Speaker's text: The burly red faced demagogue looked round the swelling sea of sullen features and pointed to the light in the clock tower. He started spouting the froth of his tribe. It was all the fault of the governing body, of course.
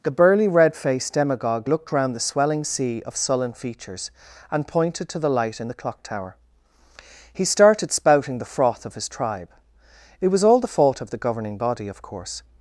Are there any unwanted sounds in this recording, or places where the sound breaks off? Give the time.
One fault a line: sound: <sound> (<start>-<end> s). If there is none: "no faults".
no faults